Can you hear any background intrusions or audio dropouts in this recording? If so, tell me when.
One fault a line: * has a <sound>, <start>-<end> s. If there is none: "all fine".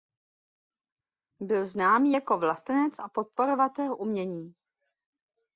all fine